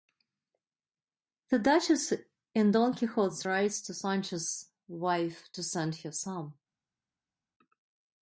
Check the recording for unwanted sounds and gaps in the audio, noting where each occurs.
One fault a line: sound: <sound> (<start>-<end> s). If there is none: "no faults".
no faults